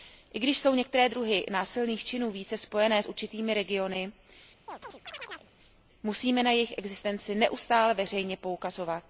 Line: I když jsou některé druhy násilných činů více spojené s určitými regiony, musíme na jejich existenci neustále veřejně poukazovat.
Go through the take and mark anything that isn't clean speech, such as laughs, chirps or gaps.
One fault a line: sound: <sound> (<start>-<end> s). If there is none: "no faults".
sound: chirp (4.7-5.5 s)